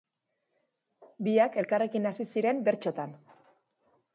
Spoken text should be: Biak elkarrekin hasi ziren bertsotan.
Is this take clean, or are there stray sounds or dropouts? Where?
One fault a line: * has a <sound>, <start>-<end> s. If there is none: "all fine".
all fine